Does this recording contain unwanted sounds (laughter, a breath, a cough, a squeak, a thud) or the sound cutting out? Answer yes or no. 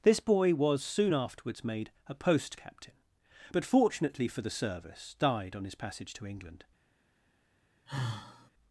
yes